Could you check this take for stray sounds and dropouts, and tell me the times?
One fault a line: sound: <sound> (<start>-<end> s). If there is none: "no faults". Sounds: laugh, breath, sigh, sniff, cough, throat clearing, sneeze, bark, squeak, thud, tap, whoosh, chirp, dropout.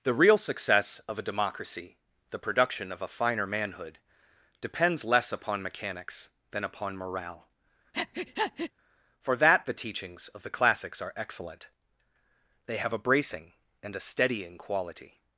sound: breath (7.9-8.7 s)